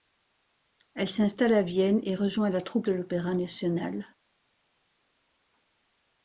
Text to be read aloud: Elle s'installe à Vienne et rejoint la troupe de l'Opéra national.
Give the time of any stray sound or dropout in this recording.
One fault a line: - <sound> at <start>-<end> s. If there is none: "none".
none